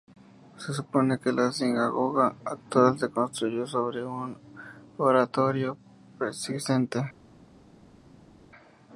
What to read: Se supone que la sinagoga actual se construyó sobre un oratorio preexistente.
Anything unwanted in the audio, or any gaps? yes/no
no